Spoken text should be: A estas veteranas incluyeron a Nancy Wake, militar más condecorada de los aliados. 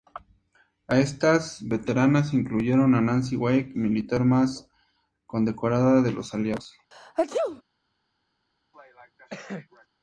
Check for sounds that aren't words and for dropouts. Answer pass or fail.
fail